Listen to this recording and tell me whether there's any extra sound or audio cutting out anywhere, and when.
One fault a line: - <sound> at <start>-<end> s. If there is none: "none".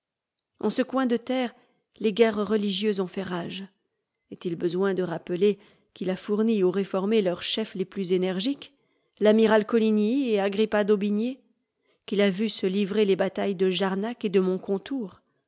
none